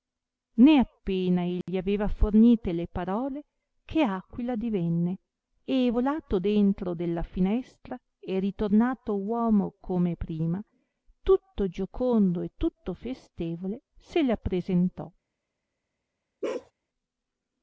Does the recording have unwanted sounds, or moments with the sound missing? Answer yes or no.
yes